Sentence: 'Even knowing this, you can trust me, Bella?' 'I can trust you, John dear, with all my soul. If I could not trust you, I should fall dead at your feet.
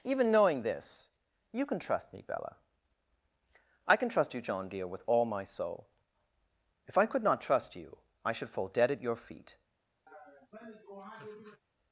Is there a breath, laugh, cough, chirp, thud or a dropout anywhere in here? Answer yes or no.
yes